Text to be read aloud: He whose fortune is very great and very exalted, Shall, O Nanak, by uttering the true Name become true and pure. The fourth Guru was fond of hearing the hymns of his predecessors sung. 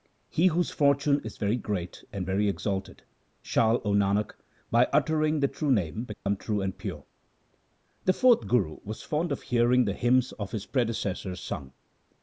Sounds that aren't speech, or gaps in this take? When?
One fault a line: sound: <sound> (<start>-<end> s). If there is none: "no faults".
sound: dropout (6.1-6.3 s)